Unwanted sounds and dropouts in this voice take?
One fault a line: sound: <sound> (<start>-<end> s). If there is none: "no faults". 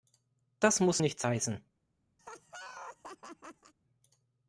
sound: laugh (2.2-3.7 s)